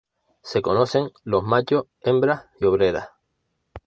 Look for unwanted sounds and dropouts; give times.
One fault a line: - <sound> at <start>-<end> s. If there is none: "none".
none